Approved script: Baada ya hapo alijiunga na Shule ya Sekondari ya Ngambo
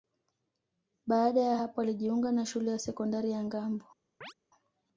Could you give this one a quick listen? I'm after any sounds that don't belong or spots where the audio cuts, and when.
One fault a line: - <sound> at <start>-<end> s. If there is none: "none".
- chirp at 4.2-4.3 s